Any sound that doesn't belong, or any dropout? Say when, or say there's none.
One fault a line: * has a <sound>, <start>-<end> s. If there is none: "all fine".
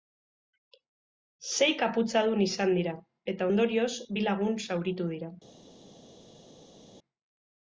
all fine